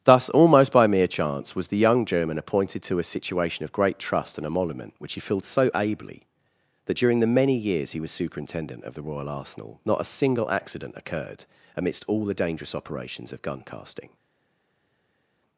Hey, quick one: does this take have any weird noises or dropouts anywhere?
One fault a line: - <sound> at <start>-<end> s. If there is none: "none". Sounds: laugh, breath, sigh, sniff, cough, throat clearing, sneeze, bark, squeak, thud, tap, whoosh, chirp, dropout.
none